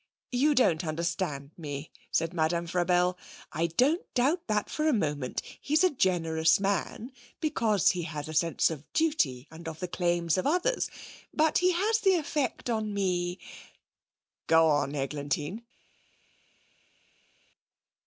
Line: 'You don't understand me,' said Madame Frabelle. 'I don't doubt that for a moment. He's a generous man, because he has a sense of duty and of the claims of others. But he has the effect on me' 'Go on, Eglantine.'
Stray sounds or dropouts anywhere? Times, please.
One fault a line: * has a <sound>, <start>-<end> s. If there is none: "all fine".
all fine